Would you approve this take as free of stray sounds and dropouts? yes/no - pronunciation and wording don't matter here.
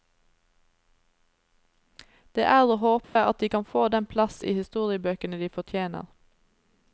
no